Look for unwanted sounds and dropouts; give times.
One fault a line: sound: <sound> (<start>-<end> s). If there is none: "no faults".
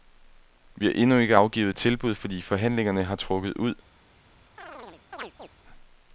sound: chirp (4.6-5.5 s)